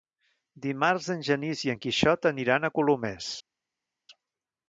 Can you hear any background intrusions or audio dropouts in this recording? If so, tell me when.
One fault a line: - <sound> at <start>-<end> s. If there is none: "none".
none